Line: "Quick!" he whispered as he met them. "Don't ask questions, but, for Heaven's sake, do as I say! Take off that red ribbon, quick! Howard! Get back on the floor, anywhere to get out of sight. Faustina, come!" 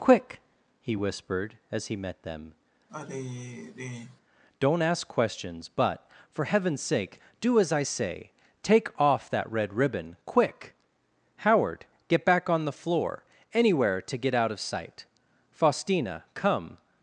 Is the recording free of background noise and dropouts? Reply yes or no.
no